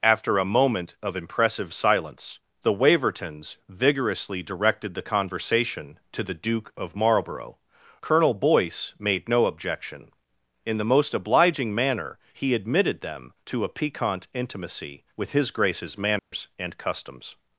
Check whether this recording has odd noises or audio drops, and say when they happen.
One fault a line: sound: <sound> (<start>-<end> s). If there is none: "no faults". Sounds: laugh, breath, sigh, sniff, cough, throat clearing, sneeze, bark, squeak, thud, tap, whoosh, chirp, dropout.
sound: dropout (16.2-16.3 s)